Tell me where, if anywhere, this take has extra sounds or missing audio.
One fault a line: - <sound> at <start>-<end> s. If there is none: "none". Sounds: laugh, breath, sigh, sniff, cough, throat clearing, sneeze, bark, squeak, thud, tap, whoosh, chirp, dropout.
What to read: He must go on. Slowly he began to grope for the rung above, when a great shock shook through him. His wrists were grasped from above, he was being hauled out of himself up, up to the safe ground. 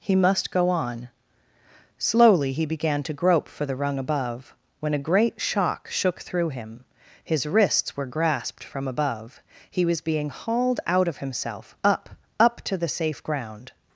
none